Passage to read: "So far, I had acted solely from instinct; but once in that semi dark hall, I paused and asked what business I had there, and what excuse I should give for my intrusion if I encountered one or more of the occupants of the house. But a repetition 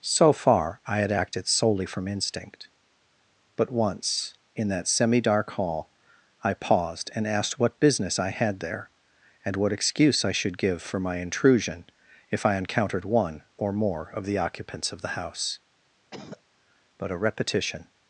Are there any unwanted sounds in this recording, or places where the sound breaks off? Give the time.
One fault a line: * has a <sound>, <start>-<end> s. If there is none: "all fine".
* has a cough, 16.1-16.4 s